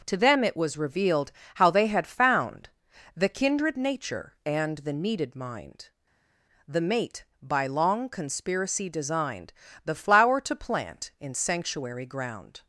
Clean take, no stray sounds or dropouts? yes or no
yes